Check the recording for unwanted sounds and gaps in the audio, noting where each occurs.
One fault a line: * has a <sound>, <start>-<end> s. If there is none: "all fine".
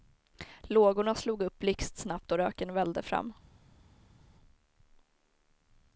all fine